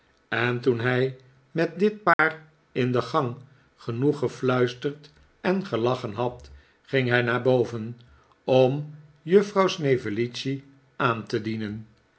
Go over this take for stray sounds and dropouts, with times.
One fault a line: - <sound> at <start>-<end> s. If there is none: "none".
- dropout at 2.1-2.2 s